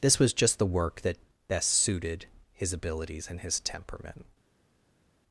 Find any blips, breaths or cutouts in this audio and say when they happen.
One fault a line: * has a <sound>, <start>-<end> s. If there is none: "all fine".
all fine